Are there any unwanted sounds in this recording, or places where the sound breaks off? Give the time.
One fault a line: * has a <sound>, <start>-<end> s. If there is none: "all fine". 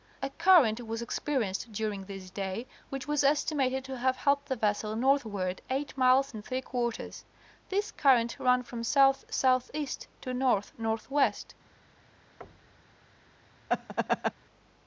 * has a thud, 12.4-13.0 s
* has a laugh, 13.7-14.3 s